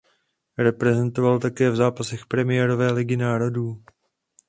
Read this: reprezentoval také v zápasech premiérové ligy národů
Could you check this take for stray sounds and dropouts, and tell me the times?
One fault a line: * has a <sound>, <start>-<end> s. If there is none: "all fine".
all fine